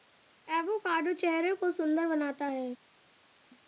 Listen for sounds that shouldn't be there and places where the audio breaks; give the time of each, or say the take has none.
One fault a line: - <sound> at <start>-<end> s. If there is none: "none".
none